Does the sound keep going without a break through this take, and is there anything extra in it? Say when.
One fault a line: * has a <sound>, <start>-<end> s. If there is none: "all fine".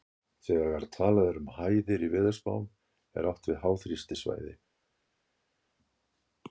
all fine